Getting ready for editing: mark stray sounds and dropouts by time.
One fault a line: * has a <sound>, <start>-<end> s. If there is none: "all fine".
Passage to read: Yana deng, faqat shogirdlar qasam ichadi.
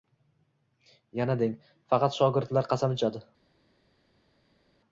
all fine